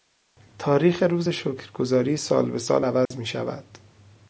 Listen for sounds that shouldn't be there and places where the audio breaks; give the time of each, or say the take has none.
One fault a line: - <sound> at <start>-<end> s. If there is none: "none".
- dropout at 3.1-3.1 s